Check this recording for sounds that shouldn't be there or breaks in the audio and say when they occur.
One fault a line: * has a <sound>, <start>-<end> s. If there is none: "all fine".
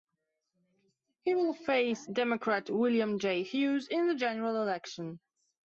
all fine